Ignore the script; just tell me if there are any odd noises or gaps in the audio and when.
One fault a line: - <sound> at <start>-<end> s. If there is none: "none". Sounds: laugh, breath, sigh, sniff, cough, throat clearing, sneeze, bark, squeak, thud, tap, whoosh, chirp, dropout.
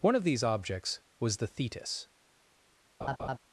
- laugh at 3.0-3.4 s